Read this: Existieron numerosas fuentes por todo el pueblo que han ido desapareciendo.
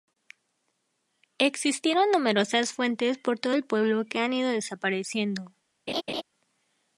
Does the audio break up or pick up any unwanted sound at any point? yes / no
yes